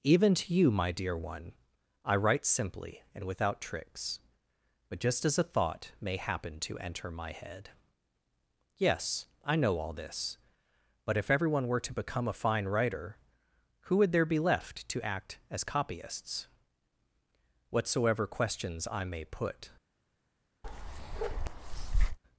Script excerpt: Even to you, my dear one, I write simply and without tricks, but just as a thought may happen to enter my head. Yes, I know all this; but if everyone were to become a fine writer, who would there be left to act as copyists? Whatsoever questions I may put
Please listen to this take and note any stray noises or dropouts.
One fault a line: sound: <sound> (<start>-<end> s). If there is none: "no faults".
sound: bark (20.6-22.2 s)